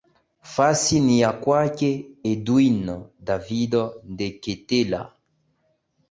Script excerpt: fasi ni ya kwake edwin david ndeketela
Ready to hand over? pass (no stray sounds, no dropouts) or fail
pass